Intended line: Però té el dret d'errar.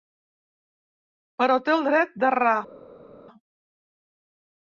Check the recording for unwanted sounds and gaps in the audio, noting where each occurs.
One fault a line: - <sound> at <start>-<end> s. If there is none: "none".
none